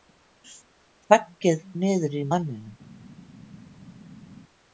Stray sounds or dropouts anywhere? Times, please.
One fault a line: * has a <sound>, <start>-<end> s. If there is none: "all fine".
all fine